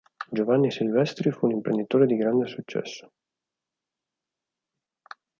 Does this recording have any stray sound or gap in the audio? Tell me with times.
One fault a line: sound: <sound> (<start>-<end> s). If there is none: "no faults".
no faults